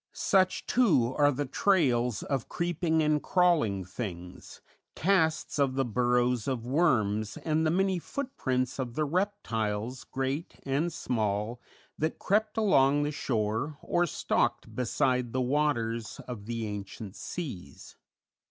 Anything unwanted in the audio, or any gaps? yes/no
no